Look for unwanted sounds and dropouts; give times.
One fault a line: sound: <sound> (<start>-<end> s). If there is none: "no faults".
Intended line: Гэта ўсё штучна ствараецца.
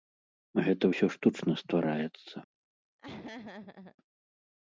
sound: laugh (3.0-4.0 s)